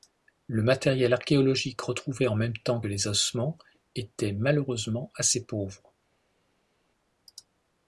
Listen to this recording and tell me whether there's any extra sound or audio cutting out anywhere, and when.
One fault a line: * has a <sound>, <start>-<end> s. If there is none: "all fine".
all fine